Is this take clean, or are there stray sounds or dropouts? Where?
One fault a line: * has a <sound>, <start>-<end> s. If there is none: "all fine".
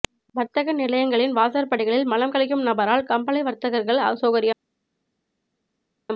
all fine